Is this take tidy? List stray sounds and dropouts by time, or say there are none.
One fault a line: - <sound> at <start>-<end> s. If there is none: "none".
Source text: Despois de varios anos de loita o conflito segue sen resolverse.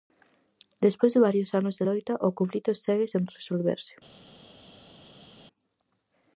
none